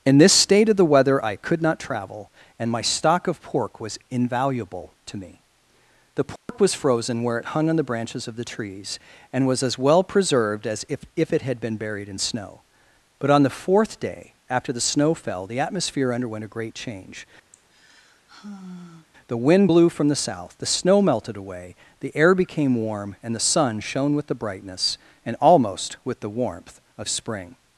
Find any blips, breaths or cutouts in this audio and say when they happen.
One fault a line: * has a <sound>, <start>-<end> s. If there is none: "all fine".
* has a dropout, 6.4-6.5 s
* has a sigh, 17.5-19.1 s